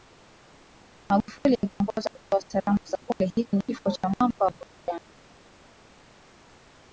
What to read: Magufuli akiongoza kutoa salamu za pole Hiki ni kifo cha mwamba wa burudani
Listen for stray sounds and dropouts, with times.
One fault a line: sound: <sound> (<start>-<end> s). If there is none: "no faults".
no faults